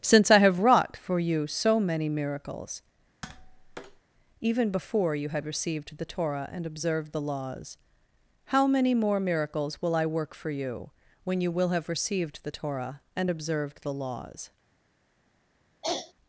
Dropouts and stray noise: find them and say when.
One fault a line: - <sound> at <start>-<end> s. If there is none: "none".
- tap at 3.2-4.0 s
- throat clearing at 15.8-16.1 s